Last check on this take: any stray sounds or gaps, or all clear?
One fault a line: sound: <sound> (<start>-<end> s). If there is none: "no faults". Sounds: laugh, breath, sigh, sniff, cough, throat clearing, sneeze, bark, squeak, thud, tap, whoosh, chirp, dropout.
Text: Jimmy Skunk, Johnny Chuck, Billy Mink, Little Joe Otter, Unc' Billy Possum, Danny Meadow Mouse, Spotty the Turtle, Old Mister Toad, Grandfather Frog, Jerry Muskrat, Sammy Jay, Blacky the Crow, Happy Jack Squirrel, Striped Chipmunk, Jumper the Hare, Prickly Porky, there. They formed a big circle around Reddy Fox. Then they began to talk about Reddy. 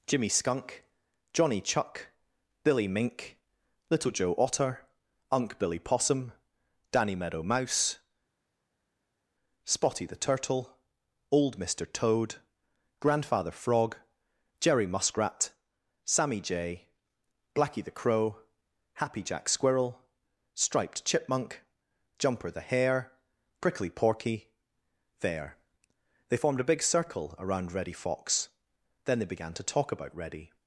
no faults